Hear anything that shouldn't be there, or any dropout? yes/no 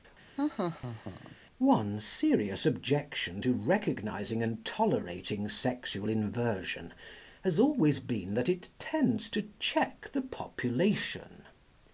yes